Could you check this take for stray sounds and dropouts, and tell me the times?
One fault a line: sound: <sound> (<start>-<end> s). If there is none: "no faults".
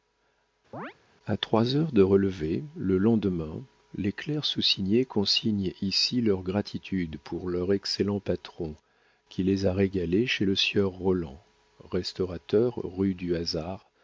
sound: chirp (0.7-0.9 s)